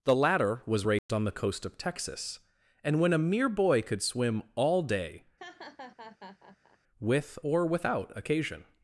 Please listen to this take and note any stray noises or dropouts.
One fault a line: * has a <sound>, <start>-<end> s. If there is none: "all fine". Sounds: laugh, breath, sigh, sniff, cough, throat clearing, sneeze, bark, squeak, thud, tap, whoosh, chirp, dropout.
* has a dropout, 1.0-1.1 s
* has a laugh, 5.4-6.8 s